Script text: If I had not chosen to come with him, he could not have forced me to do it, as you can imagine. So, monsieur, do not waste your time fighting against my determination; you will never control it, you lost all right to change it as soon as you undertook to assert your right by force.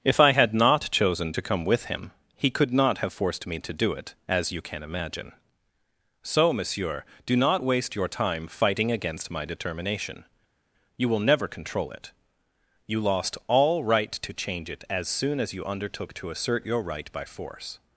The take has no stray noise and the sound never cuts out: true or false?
true